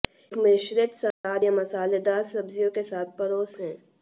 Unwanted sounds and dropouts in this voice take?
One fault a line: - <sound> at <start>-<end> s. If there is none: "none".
- dropout at 1.1-1.2 s